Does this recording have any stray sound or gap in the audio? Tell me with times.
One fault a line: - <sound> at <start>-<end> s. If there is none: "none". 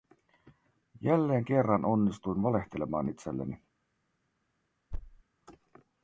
- thud at 4.9-5.2 s